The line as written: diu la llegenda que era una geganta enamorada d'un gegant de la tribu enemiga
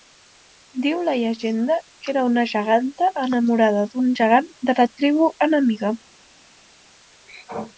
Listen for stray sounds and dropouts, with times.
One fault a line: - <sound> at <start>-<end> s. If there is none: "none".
none